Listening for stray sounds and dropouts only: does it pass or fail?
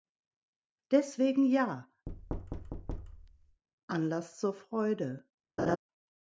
fail